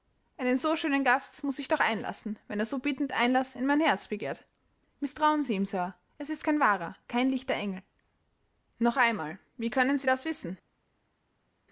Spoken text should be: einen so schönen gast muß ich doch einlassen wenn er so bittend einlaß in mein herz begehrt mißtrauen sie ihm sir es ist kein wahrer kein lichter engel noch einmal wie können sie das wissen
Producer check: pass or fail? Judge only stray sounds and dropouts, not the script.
pass